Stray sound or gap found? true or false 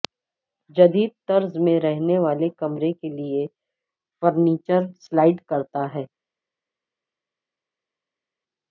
false